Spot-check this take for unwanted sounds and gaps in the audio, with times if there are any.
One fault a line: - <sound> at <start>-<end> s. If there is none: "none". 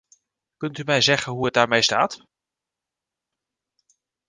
none